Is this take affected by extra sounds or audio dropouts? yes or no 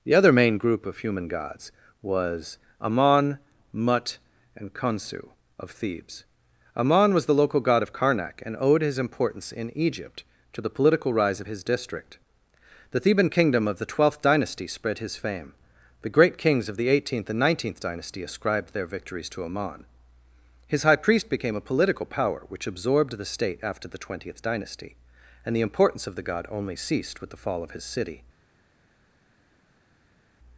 no